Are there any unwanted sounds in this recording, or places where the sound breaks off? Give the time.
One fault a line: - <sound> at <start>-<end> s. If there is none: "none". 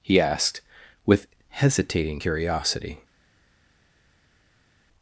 none